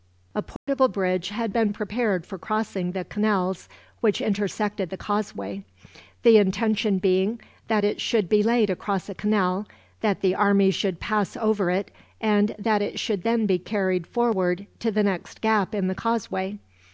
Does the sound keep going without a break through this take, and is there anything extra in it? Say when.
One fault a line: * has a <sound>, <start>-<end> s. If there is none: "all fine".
* has a dropout, 0.6-0.7 s